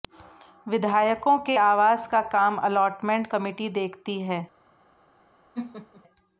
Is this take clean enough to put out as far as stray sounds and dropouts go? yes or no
no